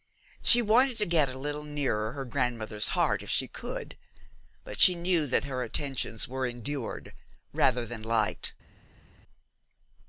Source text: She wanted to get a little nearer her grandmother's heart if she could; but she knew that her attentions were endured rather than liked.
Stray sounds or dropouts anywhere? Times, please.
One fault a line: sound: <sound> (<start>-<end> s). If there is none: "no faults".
no faults